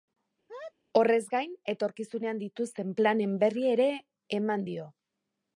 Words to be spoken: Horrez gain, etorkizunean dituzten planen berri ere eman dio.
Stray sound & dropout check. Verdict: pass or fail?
fail